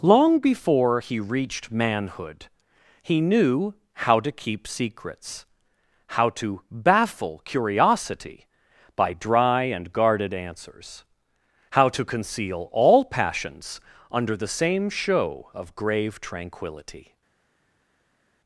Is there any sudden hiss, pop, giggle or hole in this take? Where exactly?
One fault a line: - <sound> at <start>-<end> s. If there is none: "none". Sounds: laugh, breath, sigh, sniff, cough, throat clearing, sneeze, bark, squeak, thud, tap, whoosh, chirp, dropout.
none